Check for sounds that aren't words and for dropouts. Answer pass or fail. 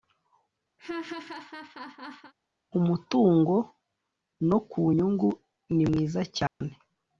fail